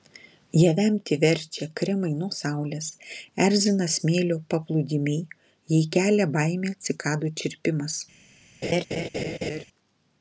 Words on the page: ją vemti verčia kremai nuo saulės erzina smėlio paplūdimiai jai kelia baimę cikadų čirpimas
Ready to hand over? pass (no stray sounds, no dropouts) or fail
fail